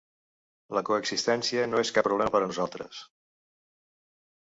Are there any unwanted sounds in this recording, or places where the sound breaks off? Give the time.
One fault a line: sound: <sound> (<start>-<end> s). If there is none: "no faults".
no faults